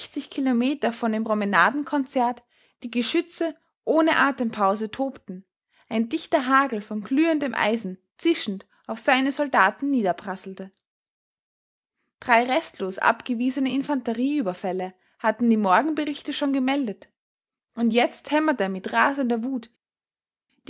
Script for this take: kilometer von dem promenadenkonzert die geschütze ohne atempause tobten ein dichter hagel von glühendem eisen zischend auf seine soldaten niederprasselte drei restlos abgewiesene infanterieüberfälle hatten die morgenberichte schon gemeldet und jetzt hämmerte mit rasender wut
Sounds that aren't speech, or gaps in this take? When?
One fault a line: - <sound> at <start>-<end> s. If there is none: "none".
none